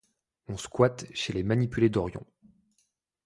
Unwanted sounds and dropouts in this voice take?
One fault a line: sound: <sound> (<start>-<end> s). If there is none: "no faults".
no faults